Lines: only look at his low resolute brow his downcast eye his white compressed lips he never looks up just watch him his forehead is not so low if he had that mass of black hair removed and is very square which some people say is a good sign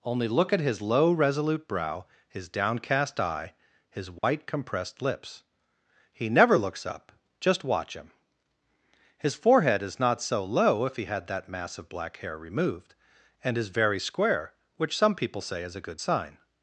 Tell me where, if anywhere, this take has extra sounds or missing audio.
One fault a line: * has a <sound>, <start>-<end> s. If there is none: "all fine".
* has a dropout, 4.2-4.2 s